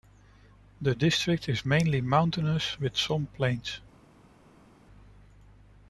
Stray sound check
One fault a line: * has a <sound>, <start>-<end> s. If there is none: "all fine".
all fine